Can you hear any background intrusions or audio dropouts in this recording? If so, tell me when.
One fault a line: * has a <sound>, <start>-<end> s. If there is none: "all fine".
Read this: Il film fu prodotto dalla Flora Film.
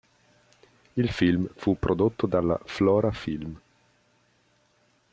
all fine